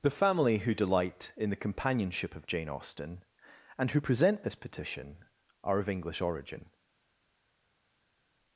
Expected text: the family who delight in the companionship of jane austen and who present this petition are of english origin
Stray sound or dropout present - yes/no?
no